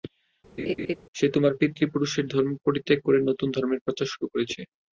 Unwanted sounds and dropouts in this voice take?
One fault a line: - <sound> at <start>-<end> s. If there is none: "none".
- laugh at 0.6-1.0 s